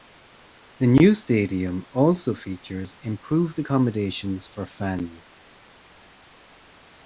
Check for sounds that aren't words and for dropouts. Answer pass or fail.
pass